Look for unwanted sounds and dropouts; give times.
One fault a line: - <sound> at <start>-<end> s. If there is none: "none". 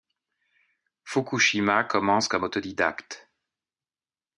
none